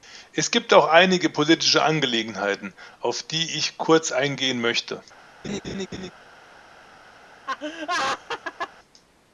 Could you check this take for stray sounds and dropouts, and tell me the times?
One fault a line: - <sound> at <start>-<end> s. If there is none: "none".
- laugh at 5.4-6.1 s
- laugh at 7.5-8.7 s